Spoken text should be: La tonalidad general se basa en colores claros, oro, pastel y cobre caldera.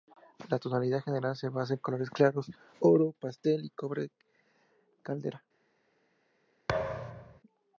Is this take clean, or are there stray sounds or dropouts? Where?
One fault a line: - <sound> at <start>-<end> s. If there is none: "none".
- thud at 6.7-7.4 s